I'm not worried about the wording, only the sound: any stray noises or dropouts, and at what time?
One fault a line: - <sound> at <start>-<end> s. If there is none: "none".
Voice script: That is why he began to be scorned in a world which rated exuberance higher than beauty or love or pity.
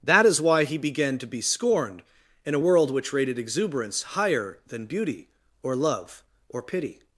none